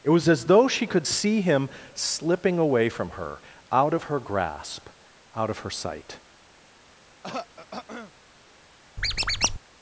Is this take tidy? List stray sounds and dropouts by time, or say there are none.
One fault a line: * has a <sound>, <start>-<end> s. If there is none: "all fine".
* has a throat clearing, 7.2-8.1 s
* has a squeak, 9.0-9.6 s